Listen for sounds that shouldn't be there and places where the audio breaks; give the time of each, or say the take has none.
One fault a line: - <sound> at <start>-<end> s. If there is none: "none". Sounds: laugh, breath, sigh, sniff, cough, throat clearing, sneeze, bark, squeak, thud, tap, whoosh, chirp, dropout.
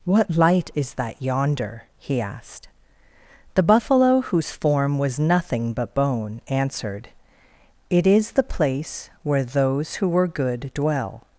none